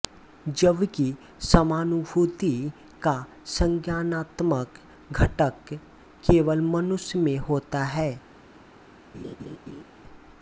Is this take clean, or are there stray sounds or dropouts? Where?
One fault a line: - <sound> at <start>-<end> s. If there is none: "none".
- laugh at 9.1-9.8 s